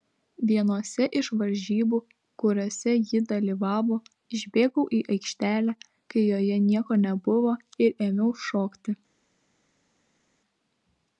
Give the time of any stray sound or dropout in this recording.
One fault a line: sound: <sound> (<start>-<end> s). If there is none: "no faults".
no faults